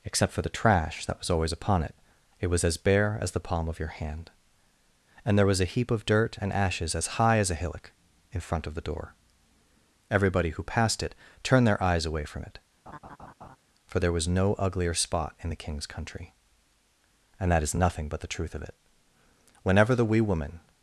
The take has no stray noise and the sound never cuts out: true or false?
false